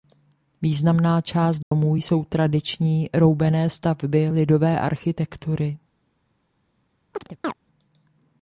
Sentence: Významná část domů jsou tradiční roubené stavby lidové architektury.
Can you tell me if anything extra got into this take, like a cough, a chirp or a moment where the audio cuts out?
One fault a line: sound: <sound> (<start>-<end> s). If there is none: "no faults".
sound: dropout (1.6-1.7 s)
sound: chirp (7.1-7.5 s)